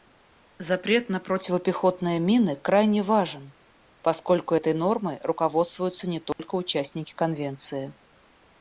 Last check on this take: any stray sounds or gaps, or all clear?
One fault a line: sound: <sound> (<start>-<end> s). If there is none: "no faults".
sound: dropout (6.3-6.4 s)